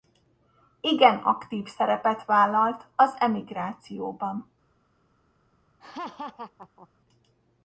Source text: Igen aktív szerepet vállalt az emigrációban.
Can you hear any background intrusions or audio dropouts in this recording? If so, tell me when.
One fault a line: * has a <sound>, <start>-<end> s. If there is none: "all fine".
* has a laugh, 5.8-6.9 s